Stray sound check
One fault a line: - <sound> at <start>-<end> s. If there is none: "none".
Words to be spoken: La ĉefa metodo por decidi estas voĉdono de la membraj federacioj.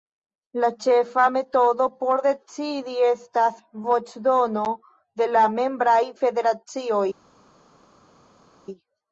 none